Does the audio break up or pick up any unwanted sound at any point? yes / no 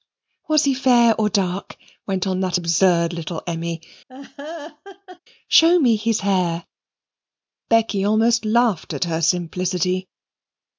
yes